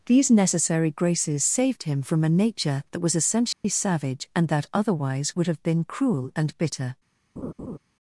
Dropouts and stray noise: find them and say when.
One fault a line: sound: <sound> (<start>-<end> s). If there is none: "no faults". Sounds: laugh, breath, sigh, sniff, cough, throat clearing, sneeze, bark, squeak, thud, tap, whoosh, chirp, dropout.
sound: dropout (3.5-3.6 s)
sound: laugh (7.4-7.8 s)